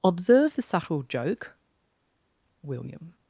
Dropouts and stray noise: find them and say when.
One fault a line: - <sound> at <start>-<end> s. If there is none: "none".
none